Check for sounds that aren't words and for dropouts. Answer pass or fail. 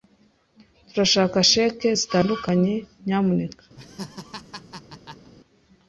fail